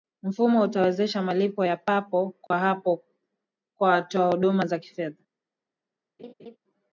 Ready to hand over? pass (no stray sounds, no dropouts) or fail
fail